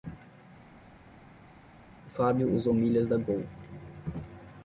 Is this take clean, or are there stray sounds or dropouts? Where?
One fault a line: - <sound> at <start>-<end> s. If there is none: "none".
none